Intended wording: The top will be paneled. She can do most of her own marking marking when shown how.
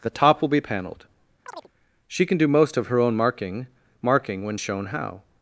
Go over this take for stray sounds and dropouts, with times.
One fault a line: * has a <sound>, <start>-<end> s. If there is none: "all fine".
* has a chirp, 1.5-1.7 s